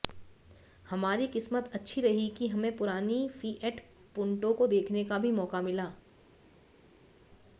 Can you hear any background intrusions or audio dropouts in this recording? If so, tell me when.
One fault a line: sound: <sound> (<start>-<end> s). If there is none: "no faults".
no faults